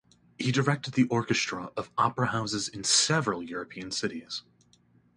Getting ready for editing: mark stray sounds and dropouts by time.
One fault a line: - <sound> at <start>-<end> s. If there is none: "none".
none